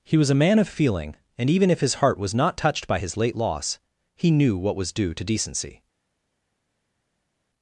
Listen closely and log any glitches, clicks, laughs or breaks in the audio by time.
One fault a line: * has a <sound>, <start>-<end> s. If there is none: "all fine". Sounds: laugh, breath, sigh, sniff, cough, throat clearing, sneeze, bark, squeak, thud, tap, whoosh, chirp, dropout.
all fine